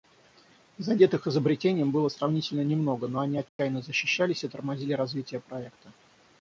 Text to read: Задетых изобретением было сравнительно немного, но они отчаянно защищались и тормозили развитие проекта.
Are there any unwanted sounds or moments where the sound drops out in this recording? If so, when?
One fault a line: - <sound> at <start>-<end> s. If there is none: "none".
- dropout at 3.5-3.6 s